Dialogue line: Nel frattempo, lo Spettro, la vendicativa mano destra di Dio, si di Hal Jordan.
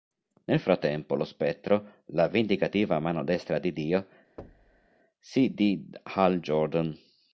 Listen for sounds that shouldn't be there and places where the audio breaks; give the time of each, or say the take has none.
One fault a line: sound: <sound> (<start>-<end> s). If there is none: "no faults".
sound: thud (4.4-4.9 s)